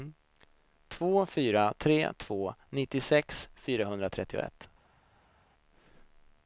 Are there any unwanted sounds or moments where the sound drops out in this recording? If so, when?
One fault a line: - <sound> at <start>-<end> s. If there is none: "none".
none